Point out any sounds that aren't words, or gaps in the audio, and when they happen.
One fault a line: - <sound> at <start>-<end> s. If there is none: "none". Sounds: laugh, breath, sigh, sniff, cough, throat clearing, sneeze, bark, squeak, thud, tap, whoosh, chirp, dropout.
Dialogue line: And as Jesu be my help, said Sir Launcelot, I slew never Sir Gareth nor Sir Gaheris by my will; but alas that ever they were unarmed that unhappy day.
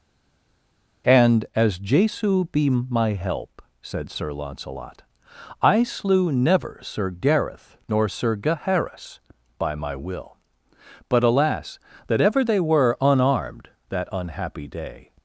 none